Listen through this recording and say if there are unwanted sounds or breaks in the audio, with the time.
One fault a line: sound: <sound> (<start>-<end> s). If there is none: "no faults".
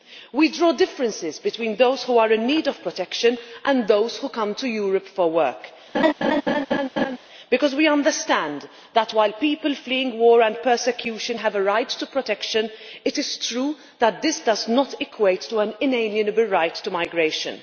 sound: laugh (5.9-7.2 s)